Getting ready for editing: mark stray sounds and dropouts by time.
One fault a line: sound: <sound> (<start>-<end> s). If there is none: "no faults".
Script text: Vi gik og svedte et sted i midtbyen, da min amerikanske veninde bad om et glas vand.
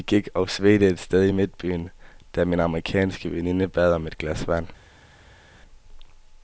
no faults